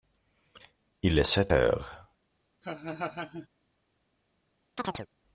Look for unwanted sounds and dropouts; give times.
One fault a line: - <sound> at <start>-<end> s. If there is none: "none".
- laugh at 2.6-3.5 s
- chirp at 4.8-5.1 s